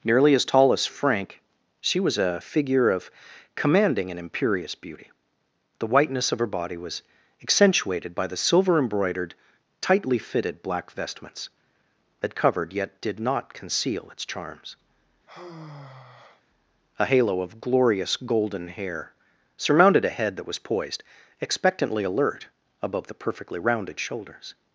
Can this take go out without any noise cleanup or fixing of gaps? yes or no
no